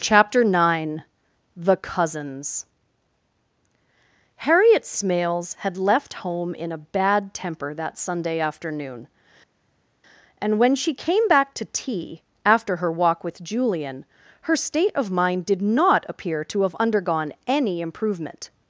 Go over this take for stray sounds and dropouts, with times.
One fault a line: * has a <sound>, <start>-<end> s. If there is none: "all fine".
all fine